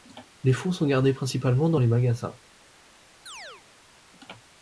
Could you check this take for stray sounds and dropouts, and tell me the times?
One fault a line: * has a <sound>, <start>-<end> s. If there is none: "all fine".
* has a chirp, 3.3-3.6 s